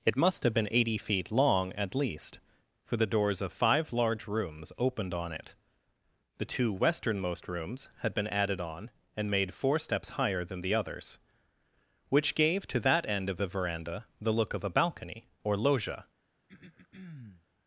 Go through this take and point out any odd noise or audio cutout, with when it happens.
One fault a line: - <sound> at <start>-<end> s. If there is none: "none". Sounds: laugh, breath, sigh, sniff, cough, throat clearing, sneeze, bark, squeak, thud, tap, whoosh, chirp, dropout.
- throat clearing at 16.5-17.5 s